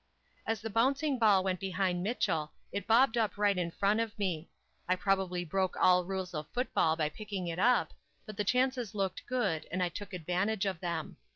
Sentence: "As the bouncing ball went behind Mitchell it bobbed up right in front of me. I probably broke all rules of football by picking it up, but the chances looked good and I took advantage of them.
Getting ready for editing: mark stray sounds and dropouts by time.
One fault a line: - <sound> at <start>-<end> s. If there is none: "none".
none